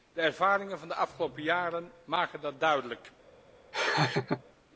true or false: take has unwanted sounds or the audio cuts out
true